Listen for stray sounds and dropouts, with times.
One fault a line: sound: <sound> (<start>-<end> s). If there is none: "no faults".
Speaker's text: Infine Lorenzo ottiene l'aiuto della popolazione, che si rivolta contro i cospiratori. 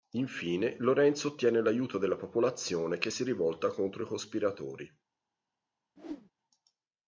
sound: whoosh (6.0-6.3 s)